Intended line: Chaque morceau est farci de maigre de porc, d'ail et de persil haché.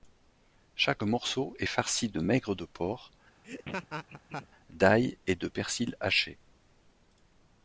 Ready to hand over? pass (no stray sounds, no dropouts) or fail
fail